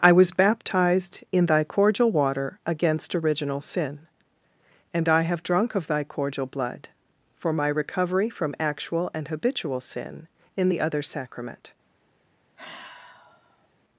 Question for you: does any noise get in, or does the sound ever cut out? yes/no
yes